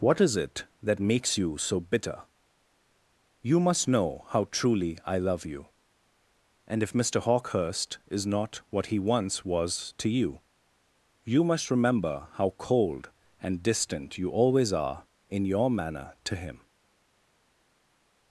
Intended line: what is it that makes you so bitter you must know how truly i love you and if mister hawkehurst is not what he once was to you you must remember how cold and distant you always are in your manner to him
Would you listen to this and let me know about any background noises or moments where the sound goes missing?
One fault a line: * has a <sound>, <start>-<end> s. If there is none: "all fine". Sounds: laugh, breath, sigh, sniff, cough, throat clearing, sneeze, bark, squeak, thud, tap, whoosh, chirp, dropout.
all fine